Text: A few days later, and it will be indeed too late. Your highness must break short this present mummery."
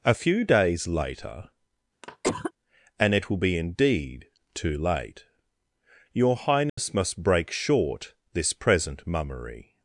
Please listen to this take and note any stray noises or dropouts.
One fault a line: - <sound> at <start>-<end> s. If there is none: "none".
- cough at 2.0-2.5 s
- dropout at 6.7-6.8 s